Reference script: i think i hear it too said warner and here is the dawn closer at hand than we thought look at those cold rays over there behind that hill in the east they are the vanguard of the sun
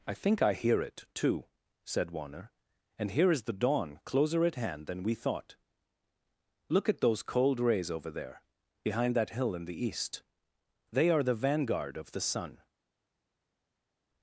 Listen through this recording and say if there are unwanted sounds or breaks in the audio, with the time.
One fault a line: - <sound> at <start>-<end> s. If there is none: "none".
none